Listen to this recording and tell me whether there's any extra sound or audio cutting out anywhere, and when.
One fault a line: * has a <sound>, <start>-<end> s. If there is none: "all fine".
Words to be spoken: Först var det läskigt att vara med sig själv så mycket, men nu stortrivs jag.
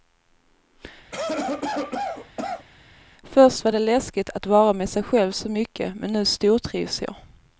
* has a cough, 1.1-2.7 s